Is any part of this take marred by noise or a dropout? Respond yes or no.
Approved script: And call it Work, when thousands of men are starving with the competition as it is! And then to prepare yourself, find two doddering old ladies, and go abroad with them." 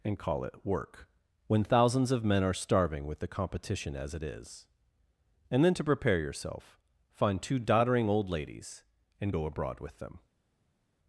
no